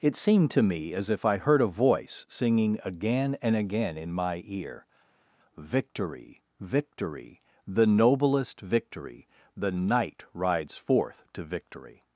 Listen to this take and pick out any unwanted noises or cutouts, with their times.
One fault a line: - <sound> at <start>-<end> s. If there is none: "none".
none